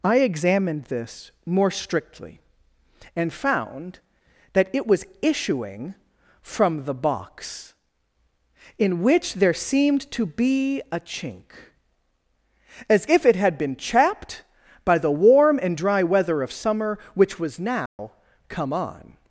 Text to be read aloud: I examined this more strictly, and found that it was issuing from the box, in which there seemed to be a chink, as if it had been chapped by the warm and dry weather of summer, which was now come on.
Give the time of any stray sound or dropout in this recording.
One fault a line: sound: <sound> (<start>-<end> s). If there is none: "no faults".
sound: dropout (17.9-18.0 s)